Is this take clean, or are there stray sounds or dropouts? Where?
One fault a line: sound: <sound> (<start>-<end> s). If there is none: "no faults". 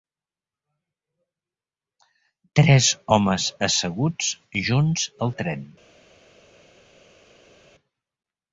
no faults